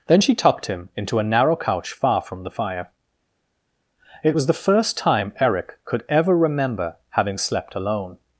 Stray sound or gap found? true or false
false